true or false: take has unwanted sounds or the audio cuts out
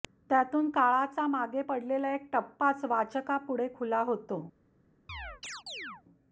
true